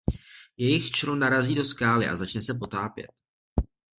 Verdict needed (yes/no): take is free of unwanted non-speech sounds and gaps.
yes